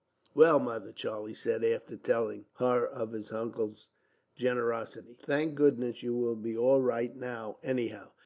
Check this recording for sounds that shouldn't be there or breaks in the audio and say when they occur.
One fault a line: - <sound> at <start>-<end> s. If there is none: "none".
none